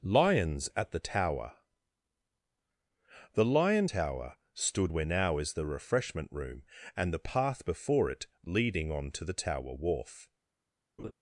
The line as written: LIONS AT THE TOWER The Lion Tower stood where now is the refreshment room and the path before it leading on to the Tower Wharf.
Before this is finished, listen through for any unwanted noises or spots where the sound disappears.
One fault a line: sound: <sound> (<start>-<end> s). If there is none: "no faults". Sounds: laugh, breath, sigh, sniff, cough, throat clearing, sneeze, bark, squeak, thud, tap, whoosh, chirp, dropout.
sound: laugh (11.0-11.1 s)